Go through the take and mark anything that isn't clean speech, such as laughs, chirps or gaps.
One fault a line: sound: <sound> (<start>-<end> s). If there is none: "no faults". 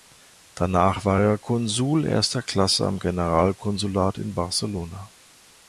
no faults